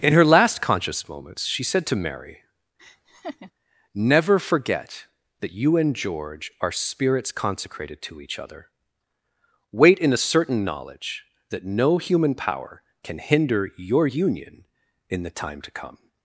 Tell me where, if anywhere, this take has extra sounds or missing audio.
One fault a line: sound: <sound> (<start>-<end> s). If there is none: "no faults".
sound: laugh (2.8-3.5 s)